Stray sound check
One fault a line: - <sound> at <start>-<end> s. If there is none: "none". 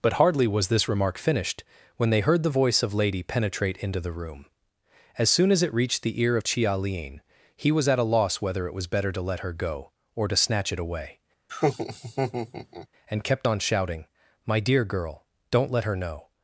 - laugh at 11.5-12.9 s